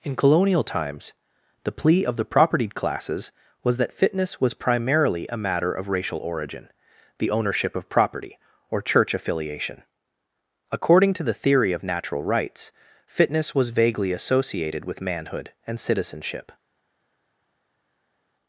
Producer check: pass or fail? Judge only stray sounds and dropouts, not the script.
pass